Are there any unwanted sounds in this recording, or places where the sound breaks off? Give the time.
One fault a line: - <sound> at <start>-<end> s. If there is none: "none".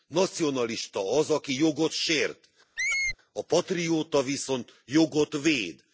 - squeak at 2.8-3.2 s